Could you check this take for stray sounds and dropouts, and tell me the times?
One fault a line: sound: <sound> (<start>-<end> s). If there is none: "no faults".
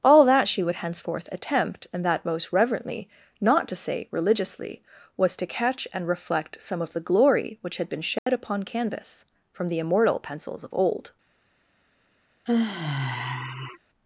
sound: dropout (8.2-8.3 s)
sound: sigh (12.5-13.8 s)